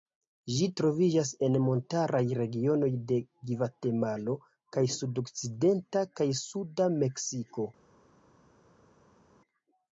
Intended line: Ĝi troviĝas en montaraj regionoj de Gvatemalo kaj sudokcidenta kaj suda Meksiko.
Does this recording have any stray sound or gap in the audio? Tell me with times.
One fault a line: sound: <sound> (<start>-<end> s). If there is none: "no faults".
no faults